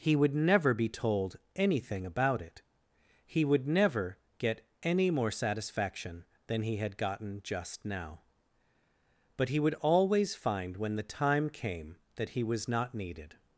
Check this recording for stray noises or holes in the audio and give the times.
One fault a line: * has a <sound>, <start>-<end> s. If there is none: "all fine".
all fine